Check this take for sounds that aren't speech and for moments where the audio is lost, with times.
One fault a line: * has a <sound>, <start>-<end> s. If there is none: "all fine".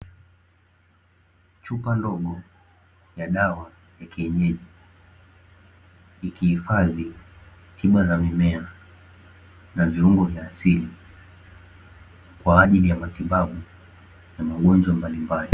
all fine